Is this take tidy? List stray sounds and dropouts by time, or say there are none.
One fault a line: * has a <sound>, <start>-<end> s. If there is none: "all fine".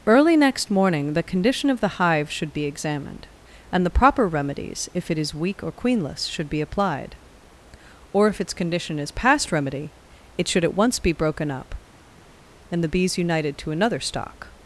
all fine